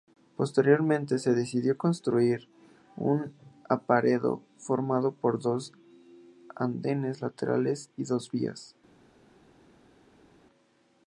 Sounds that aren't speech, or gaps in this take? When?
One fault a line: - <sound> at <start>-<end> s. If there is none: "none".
none